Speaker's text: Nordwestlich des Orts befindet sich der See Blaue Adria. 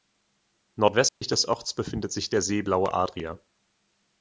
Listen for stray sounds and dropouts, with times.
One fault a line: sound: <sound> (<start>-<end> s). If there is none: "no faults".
sound: dropout (1.1-1.2 s)